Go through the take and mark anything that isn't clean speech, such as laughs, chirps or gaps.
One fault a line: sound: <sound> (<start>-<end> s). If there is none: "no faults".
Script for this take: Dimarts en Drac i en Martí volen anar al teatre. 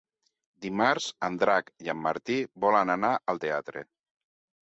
no faults